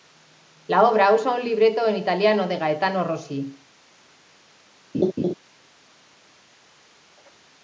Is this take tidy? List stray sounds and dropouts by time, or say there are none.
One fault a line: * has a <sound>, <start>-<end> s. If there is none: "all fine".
* has a laugh, 4.9-5.3 s